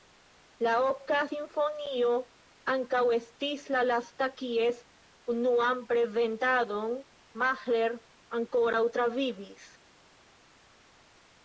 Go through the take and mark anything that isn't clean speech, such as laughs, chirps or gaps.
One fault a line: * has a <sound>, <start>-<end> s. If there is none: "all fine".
all fine